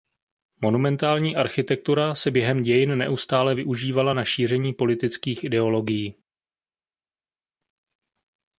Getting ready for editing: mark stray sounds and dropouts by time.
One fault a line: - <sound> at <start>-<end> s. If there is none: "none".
none